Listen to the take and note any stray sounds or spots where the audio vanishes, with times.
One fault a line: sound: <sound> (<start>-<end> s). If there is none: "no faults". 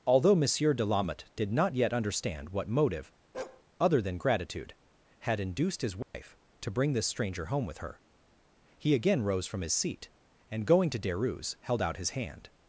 sound: bark (3.3-3.6 s)
sound: dropout (6.0-6.1 s)